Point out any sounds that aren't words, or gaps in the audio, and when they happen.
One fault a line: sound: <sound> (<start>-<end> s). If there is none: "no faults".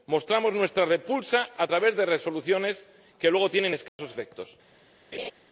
sound: dropout (3.9-4.0 s)
sound: laugh (5.1-5.3 s)